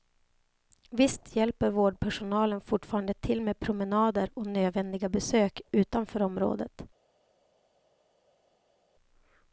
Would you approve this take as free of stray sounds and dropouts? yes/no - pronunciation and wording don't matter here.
yes